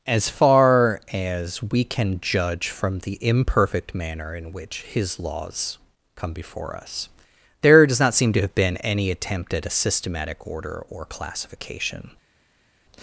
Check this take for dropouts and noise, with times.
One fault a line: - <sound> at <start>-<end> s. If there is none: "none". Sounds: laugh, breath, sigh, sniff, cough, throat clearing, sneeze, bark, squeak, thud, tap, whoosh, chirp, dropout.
none